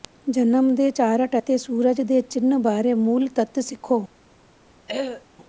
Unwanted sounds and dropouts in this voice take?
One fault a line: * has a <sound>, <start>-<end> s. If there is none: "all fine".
* has a throat clearing, 4.9-5.2 s